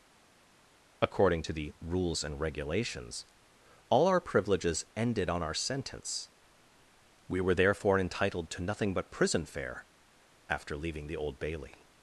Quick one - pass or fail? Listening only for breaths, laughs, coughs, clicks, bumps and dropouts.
pass